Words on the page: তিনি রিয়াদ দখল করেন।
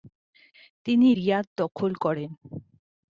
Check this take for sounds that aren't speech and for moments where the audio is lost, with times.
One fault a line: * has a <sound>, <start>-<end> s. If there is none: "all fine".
all fine